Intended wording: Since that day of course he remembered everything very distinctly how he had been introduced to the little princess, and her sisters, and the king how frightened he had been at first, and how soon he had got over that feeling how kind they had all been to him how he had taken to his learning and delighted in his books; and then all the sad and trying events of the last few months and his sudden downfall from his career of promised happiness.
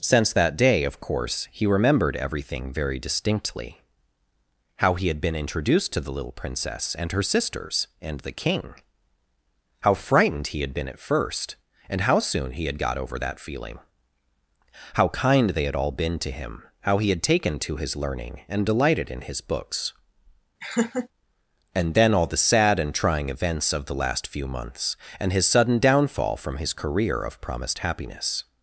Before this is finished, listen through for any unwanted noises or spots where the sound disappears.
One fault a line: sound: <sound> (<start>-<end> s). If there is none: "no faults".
sound: laugh (20.6-21.1 s)